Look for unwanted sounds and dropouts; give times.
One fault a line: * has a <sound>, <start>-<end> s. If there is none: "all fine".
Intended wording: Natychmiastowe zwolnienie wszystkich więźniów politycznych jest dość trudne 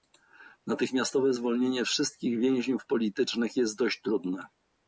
all fine